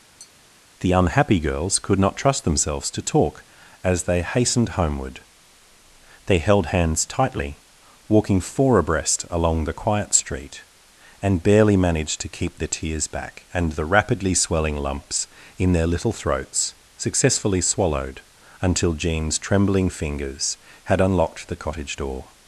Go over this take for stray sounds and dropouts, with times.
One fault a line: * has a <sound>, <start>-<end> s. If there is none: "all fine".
* has a tap, 0.2-0.3 s